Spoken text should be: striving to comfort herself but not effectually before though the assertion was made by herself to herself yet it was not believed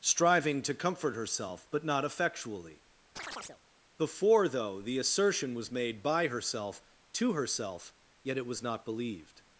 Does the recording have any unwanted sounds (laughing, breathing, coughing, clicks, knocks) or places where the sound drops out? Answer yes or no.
yes